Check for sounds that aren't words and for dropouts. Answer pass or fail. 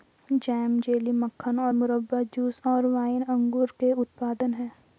pass